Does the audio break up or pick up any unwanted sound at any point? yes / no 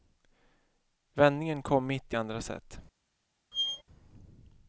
yes